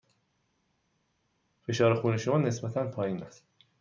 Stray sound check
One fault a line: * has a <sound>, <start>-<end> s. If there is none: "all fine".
all fine